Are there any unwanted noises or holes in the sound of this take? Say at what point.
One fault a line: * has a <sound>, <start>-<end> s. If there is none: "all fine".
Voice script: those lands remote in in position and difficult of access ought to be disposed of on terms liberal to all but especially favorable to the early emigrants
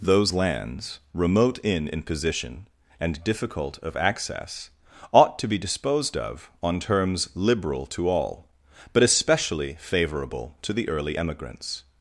all fine